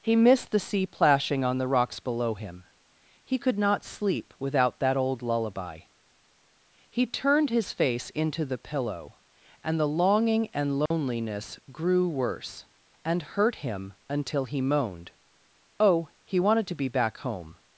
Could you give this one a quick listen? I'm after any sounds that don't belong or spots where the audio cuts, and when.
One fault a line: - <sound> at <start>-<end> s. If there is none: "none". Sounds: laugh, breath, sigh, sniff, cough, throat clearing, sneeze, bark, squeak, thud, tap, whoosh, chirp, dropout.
- dropout at 10.9-10.9 s